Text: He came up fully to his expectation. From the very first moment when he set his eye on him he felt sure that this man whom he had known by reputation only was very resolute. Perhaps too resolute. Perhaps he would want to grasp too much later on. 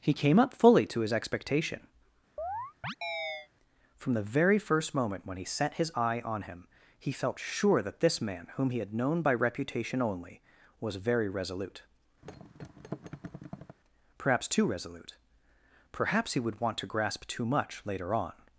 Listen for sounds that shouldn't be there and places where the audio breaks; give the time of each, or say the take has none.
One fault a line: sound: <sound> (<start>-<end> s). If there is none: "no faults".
sound: chirp (2.4-3.5 s)
sound: thud (12.2-13.8 s)